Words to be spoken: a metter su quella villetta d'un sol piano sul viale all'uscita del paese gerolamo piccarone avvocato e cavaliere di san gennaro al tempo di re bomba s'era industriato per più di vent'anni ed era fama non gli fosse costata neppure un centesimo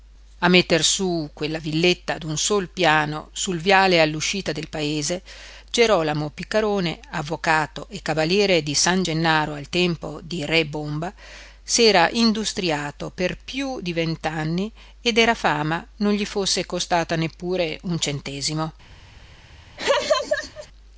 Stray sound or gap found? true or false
true